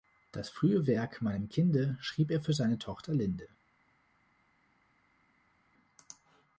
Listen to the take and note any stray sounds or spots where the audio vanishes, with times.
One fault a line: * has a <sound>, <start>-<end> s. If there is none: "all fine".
all fine